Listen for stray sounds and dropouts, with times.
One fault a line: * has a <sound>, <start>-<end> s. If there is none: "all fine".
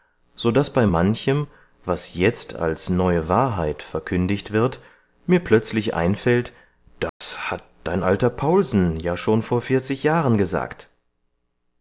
* has a dropout, 7.1-7.2 s